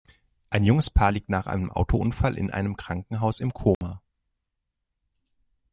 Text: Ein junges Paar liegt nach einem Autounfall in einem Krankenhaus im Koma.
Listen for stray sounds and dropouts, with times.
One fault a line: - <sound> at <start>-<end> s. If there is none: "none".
- dropout at 3.7-3.8 s